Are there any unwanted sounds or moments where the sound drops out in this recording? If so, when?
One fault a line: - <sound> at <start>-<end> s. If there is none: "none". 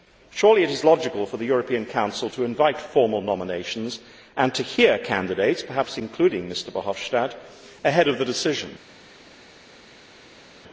none